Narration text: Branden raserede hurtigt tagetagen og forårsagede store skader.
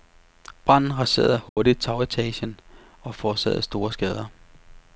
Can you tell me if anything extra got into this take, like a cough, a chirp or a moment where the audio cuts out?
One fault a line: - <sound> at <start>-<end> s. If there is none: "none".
- dropout at 1.5-1.6 s